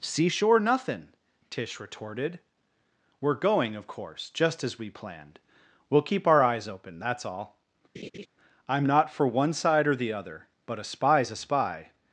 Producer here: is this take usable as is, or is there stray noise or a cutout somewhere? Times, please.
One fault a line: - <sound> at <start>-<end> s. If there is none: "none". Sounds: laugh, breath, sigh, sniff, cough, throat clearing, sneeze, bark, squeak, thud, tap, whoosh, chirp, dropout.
- laugh at 7.9-8.3 s